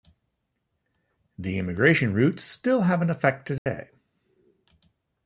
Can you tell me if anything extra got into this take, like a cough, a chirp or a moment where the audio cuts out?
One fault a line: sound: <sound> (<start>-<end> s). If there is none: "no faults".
sound: dropout (3.6-3.7 s)